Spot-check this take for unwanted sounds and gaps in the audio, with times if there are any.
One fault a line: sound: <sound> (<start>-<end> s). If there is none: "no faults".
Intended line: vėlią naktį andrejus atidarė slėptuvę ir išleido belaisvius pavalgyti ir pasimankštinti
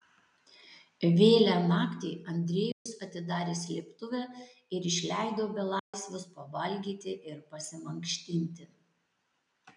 sound: dropout (2.7-2.9 s)
sound: dropout (5.8-5.9 s)